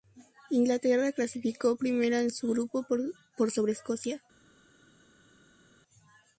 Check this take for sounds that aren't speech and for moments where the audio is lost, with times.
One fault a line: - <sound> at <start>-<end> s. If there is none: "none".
none